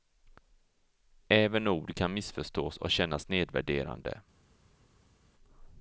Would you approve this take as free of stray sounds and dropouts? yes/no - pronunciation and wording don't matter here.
yes